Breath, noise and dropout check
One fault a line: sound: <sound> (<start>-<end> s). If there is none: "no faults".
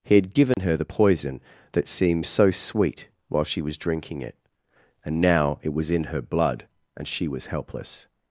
sound: dropout (0.5-0.6 s)